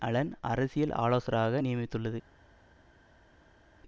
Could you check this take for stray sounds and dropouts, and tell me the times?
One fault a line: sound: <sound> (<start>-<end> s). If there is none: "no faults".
no faults